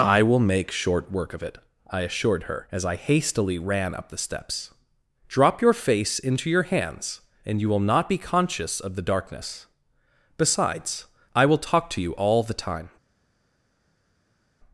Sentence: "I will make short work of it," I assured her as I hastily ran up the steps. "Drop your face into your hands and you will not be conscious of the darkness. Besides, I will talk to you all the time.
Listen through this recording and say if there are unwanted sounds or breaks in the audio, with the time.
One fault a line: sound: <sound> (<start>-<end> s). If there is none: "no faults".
no faults